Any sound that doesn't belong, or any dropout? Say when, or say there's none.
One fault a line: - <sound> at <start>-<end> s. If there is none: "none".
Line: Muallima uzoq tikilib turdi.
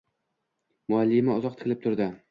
none